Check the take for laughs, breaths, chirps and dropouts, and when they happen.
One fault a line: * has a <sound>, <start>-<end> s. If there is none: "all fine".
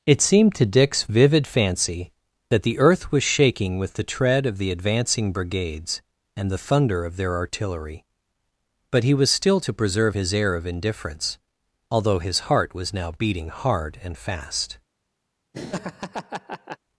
* has a laugh, 15.5-16.8 s